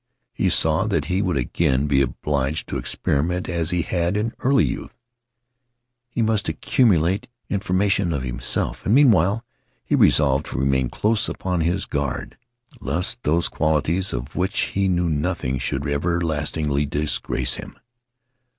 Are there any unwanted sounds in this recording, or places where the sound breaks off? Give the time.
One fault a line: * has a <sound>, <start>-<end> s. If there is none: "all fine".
all fine